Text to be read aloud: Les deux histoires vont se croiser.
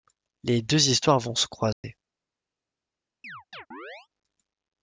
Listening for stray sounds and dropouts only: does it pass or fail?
fail